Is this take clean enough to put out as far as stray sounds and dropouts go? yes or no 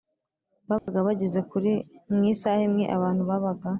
no